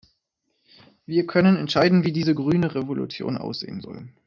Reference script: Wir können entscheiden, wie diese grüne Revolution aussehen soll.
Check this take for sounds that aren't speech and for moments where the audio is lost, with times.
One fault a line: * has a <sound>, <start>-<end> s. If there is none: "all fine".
all fine